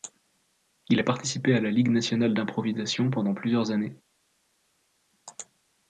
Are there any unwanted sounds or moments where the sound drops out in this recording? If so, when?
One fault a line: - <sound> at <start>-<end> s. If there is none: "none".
none